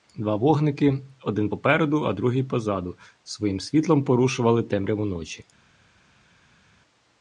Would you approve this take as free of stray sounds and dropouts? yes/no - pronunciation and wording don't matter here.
yes